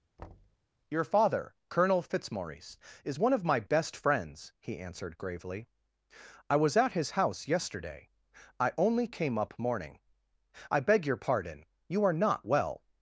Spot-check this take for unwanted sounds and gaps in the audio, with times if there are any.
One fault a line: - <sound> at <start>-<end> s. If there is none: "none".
- thud at 0.2-0.6 s